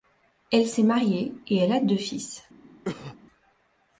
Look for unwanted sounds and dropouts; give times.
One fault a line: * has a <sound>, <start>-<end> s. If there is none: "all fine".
* has a cough, 2.8-3.2 s